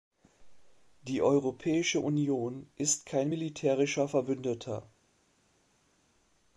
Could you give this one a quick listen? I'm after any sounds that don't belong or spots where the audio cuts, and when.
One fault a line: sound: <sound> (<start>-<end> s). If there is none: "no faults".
no faults